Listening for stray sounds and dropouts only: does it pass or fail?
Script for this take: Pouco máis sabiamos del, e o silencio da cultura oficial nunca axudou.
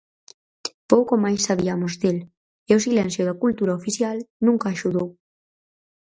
pass